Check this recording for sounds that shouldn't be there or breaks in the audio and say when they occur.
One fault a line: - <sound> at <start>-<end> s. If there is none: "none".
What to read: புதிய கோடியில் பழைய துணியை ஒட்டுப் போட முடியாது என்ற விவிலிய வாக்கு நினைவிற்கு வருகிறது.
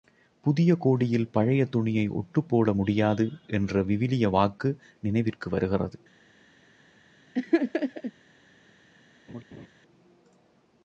- laugh at 7.3-8.1 s
- laugh at 9.3-9.7 s